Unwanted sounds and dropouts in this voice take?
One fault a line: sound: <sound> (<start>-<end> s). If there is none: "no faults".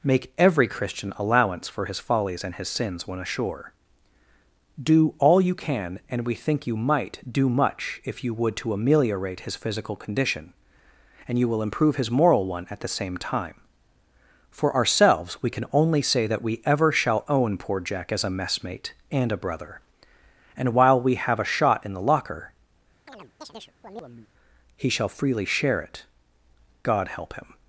sound: chirp (23.1-24.3 s)